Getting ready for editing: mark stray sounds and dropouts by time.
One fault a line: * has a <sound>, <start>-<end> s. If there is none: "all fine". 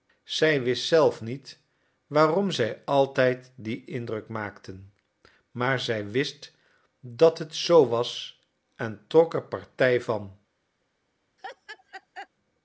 * has a laugh, 11.4-12.3 s